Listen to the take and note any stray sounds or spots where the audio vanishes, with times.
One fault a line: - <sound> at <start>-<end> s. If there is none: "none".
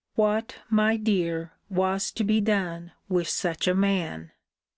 none